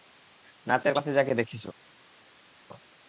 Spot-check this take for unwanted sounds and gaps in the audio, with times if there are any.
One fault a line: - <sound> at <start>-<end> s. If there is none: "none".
none